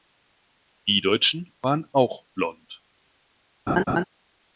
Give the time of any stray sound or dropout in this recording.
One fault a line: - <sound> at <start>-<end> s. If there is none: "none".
- laugh at 3.7-4.0 s